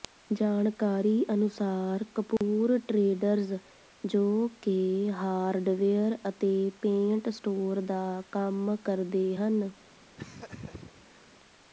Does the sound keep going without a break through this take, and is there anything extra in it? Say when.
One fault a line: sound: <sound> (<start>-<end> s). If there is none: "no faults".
sound: dropout (2.4-2.4 s)
sound: laugh (10.2-11.2 s)